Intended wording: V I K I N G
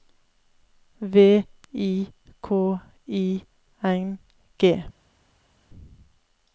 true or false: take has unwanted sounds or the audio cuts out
false